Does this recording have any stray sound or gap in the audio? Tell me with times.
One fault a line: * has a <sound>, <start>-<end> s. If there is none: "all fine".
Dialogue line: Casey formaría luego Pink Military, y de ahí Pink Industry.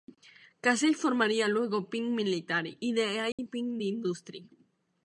* has a dropout, 3.3-3.4 s